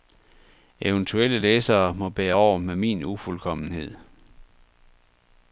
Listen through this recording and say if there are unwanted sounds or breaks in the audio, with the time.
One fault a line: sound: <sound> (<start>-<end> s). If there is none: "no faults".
no faults